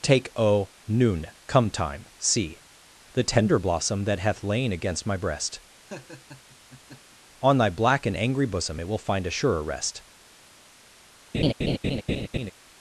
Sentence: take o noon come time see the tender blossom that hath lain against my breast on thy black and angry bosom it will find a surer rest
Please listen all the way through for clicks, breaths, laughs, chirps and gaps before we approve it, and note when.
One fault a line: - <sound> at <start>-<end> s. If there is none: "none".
- laugh at 5.9-7.2 s
- laugh at 11.3-12.5 s